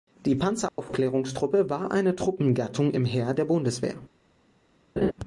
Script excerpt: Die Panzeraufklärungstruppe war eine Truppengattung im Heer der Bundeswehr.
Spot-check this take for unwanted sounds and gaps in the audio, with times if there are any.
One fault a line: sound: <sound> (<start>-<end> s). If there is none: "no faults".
sound: dropout (0.7-0.8 s)
sound: laugh (5.0-5.1 s)